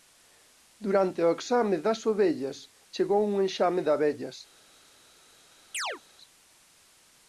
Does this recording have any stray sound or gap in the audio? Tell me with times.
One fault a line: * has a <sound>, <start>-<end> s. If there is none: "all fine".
* has a chirp, 5.7-6.0 s